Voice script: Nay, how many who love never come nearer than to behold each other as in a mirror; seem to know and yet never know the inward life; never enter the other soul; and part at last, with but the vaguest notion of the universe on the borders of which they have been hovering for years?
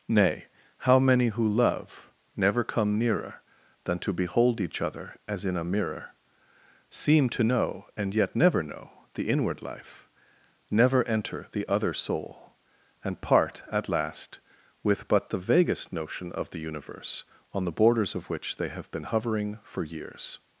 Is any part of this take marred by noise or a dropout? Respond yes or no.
no